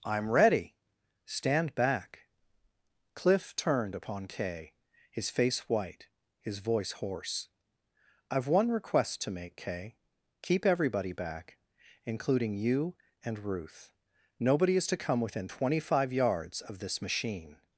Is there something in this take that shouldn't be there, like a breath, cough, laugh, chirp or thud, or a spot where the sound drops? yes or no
no